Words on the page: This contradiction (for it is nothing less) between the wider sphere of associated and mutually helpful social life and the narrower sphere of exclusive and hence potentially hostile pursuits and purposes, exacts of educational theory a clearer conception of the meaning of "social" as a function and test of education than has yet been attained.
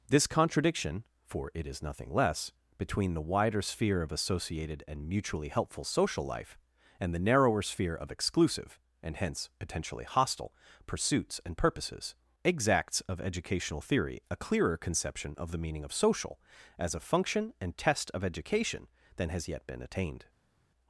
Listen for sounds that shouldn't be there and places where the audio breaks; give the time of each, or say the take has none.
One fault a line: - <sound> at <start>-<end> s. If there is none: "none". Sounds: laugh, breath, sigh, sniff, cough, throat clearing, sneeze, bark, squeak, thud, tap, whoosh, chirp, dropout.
none